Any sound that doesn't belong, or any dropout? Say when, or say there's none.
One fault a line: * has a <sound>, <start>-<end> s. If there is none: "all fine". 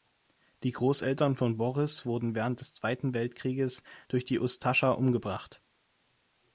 all fine